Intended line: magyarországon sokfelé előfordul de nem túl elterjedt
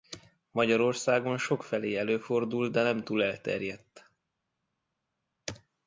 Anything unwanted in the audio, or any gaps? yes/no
no